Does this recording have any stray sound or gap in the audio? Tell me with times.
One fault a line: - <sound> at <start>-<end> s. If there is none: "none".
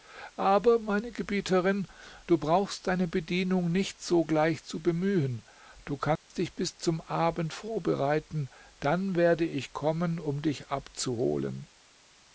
- dropout at 6.2-6.3 s